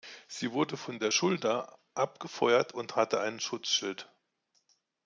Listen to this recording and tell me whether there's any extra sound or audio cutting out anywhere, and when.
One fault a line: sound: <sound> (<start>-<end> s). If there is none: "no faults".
no faults